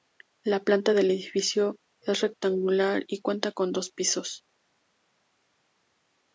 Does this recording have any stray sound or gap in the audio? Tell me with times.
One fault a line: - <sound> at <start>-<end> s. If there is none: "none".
none